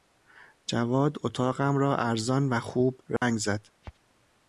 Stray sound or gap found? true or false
true